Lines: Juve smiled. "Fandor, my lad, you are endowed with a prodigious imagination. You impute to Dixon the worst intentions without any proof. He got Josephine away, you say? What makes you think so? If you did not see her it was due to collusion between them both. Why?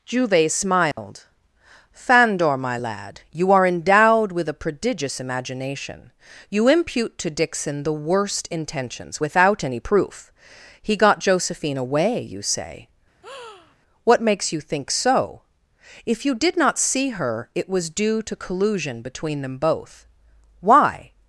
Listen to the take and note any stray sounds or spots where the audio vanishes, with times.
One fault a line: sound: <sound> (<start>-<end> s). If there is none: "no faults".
sound: dropout (0.9-1.0 s)
sound: breath (13.2-13.8 s)